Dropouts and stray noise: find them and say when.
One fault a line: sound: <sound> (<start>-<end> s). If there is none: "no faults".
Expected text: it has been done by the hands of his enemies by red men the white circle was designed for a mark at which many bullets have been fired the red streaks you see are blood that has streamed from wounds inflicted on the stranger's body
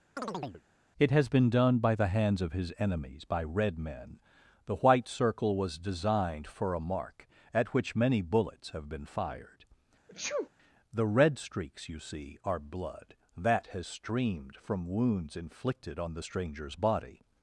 sound: chirp (0.2-0.6 s)
sound: sneeze (10.1-10.5 s)